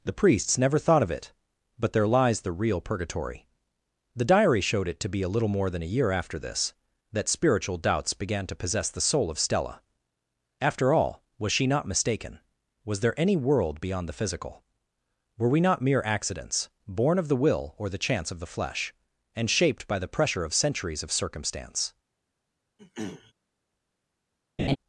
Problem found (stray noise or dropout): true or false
true